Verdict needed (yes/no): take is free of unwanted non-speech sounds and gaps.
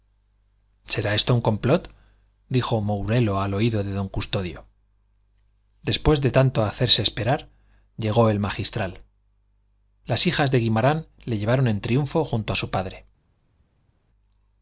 yes